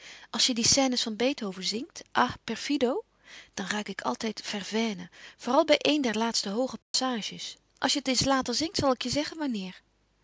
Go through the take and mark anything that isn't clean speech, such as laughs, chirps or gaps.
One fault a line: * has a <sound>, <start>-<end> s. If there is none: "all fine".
* has a dropout, 6.8-6.9 s